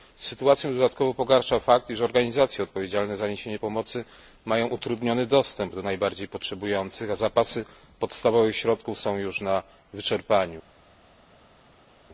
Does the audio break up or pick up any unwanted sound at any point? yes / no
no